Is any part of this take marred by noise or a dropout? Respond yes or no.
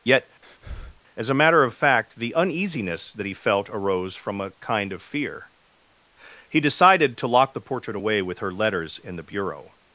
yes